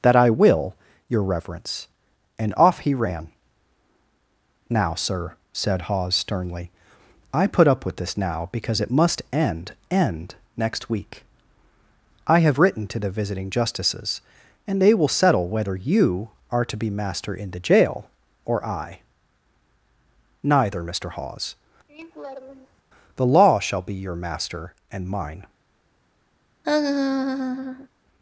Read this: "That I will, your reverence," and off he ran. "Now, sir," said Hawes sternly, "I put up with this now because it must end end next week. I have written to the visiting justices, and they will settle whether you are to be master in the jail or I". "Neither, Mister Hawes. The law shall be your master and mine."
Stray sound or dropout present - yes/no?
yes